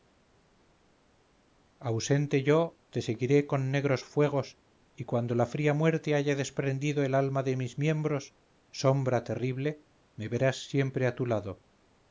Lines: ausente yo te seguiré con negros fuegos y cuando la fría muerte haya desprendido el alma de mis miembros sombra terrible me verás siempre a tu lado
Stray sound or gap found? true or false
false